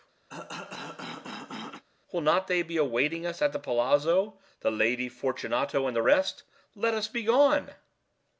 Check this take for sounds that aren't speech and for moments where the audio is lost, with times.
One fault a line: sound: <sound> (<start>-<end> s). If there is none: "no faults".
sound: cough (0.3-1.8 s)